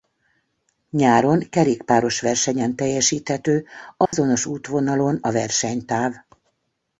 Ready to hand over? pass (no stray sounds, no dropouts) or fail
fail